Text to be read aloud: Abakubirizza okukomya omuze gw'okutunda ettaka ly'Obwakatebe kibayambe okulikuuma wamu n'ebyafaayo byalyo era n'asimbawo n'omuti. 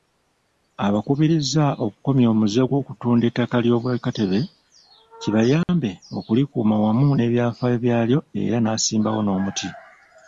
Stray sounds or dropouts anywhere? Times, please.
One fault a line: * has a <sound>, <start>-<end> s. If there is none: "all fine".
* has a dropout, 5.6-5.7 s